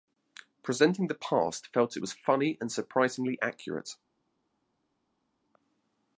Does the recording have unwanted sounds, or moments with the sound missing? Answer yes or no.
no